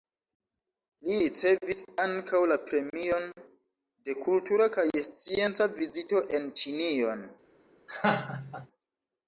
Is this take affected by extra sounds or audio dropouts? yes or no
yes